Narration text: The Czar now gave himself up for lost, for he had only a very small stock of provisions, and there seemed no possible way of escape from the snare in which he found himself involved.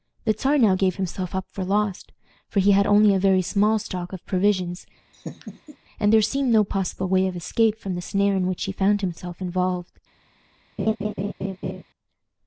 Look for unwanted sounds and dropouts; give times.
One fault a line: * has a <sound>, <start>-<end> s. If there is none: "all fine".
* has a laugh, 5.1-5.8 s
* has a laugh, 10.8-11.8 s